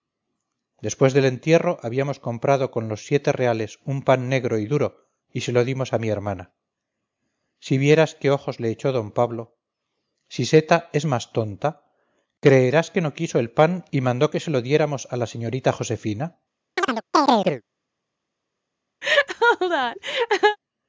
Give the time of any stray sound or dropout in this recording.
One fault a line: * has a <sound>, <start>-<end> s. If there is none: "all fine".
* has a chirp, 16.8-17.6 s
* has a laugh, 19.0-20.6 s